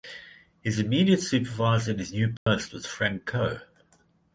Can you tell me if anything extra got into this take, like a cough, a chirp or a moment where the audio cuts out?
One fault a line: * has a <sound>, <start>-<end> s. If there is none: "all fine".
* has a dropout, 2.4-2.5 s